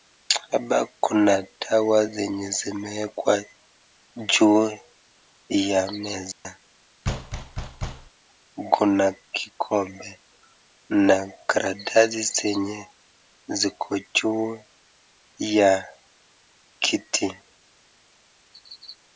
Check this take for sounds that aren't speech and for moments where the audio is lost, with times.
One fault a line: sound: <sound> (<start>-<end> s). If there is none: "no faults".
sound: dropout (6.3-6.4 s)
sound: thud (7.0-8.1 s)